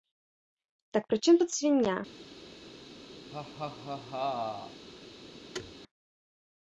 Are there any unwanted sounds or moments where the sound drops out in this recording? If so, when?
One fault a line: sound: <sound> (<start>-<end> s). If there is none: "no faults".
sound: laugh (3.3-4.9 s)
sound: thud (5.5-5.7 s)